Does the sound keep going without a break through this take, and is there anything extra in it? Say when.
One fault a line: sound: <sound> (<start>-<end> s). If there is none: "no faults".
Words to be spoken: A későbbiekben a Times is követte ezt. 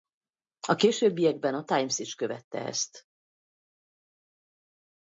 no faults